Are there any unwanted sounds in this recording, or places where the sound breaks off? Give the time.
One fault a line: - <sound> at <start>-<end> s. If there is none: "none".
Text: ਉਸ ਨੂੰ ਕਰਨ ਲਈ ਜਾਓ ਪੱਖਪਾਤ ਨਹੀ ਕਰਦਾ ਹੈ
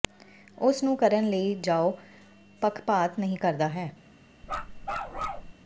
- bark at 4.4-5.5 s